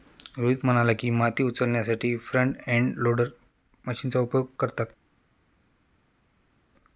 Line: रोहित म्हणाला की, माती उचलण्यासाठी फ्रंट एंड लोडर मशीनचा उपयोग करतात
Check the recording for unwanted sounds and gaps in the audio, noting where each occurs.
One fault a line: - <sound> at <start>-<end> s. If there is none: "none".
none